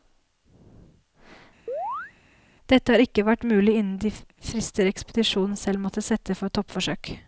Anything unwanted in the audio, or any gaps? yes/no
yes